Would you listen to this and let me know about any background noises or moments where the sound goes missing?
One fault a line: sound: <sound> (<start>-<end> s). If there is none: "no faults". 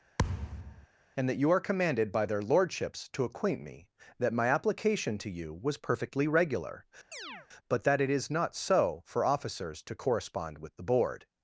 sound: thud (0.2-0.9 s)
sound: chirp (7.1-7.5 s)